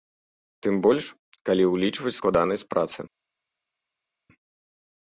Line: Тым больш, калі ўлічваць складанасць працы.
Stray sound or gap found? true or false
false